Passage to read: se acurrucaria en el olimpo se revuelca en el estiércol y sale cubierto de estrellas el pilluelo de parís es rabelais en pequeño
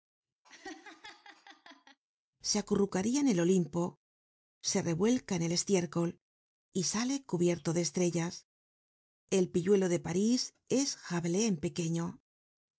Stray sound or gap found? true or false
true